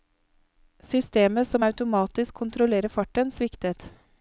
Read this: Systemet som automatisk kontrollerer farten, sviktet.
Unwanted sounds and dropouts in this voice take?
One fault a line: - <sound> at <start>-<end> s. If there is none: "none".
none